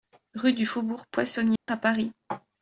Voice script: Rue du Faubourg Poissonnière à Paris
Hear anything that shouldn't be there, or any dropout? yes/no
yes